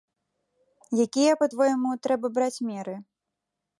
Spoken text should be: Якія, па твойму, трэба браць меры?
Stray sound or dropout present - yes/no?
no